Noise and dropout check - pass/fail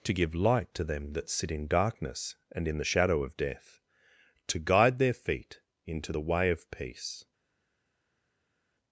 pass